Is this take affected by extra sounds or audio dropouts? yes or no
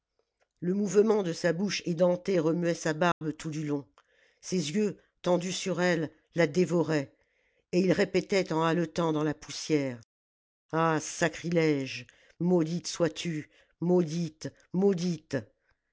yes